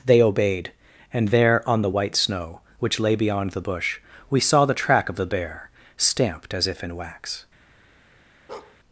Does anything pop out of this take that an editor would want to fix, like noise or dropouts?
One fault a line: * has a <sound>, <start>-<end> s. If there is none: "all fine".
* has a bark, 8.5-8.8 s